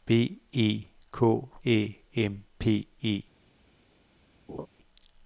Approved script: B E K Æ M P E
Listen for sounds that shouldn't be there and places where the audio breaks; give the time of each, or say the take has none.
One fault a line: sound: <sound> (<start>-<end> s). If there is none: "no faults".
sound: laugh (4.5-4.7 s)